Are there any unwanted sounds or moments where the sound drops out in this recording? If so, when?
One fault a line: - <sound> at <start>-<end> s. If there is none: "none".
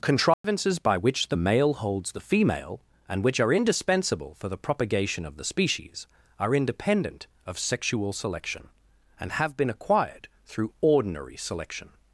- dropout at 0.3-0.4 s